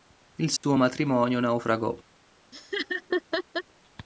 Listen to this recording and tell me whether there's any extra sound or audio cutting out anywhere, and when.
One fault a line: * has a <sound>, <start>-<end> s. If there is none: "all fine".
* has a dropout, 0.6-0.6 s
* has a laugh, 2.5-3.6 s